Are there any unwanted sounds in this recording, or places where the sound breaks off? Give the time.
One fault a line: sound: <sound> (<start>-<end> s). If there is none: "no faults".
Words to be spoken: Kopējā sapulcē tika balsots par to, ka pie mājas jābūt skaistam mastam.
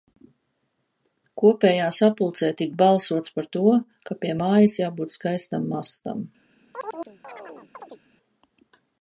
sound: chirp (6.7-8.0 s)